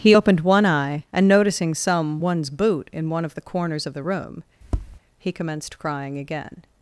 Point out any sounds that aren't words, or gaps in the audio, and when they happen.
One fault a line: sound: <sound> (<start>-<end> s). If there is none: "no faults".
sound: tap (4.6-5.0 s)